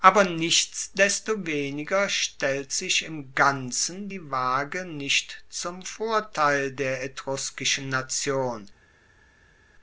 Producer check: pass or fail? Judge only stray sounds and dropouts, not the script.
pass